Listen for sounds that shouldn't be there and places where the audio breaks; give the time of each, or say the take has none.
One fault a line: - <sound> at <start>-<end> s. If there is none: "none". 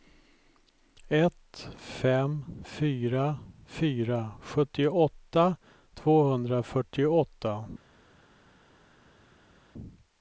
none